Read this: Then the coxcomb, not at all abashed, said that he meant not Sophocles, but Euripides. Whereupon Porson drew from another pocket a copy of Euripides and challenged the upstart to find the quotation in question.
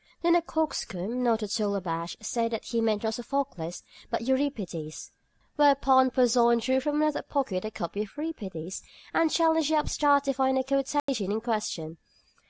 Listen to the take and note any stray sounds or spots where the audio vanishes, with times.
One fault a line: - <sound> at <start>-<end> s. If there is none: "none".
- dropout at 11.0-11.1 s